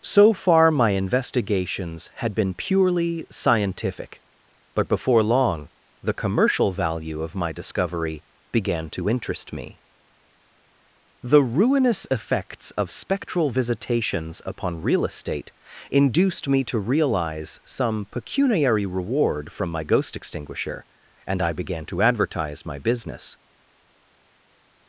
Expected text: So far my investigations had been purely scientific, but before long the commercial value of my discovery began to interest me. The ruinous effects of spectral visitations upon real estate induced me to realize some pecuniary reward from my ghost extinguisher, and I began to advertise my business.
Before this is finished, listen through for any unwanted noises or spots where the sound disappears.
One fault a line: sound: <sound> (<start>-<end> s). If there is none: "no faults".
no faults